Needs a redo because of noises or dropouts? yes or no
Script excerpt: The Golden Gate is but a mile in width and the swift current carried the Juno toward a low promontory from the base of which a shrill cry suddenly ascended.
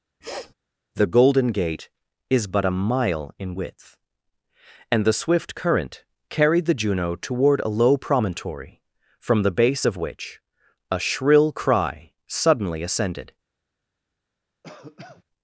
yes